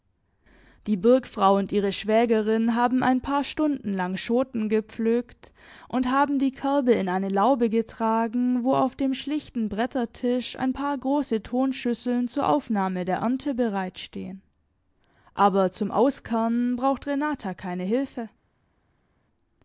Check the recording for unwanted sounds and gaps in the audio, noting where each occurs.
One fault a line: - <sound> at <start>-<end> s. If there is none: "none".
none